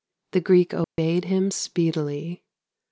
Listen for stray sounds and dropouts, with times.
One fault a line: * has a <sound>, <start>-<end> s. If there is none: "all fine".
* has a dropout, 0.8-1.0 s